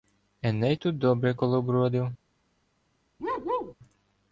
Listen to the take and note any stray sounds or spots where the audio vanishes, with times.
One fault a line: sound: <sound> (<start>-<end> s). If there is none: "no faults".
sound: bark (3.2-3.7 s)